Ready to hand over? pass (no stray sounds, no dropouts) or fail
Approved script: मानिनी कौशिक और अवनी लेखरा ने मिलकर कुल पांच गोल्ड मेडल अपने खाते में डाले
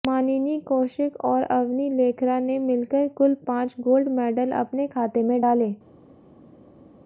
pass